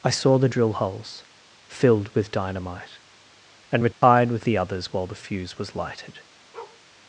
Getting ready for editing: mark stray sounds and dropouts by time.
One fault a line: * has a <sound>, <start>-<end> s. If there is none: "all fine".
* has a dropout, 3.9-4.0 s
* has a bark, 6.5-6.8 s